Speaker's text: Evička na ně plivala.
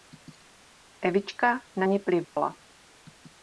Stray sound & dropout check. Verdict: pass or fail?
fail